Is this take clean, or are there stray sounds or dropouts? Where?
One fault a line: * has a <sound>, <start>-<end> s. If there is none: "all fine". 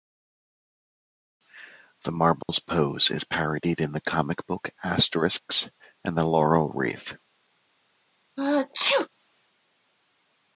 * has a dropout, 2.4-2.5 s
* has a sneeze, 8.4-9.1 s